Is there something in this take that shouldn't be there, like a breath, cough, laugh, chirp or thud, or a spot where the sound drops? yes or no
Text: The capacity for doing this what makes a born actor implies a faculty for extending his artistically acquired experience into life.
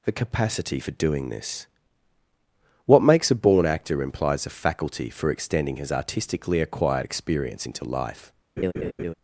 yes